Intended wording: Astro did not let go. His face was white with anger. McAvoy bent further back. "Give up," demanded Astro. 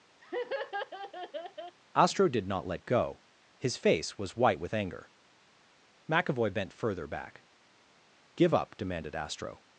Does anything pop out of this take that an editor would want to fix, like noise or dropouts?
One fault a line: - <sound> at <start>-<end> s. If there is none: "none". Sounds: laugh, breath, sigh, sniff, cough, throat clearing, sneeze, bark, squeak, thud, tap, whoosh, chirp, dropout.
- laugh at 0.2-1.8 s